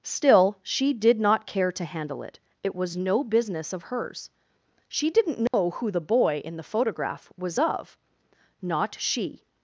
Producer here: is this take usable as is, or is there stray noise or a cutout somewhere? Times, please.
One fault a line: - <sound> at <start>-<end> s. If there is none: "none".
- dropout at 5.5-5.5 s